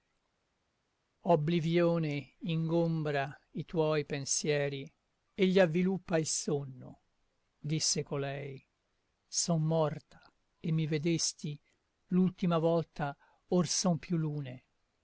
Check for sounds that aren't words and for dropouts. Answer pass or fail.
pass